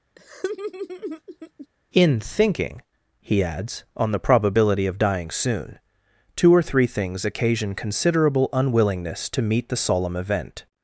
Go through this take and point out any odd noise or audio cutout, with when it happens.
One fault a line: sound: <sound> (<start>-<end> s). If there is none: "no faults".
sound: laugh (0.2-1.7 s)